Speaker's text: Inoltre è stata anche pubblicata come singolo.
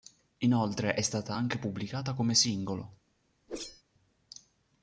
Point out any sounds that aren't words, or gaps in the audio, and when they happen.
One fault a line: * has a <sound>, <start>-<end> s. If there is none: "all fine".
* has a whoosh, 3.5-3.8 s